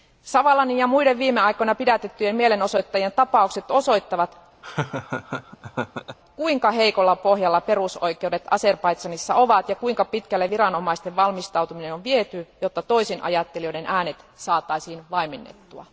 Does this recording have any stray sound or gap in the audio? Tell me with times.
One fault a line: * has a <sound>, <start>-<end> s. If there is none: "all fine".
* has a laugh, 4.6-6.2 s